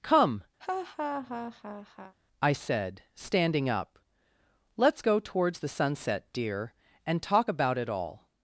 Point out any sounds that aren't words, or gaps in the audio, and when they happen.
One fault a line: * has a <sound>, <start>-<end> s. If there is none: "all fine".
* has a laugh, 0.6-2.1 s